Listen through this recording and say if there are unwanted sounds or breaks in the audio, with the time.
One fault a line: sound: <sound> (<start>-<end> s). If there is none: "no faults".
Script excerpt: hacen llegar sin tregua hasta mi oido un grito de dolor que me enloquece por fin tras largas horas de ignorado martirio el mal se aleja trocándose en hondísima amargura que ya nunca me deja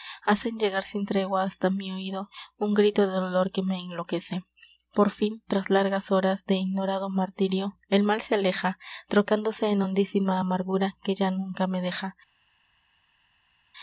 no faults